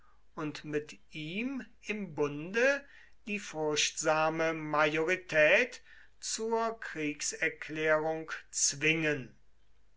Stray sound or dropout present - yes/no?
no